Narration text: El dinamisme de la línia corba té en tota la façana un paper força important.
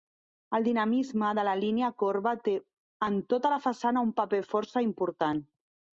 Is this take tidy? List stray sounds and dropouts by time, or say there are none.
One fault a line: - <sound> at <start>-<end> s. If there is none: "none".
none